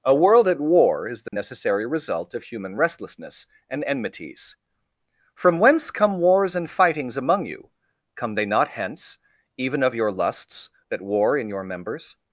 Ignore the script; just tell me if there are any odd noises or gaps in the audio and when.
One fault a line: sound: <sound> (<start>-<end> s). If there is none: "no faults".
sound: dropout (1.3-1.3 s)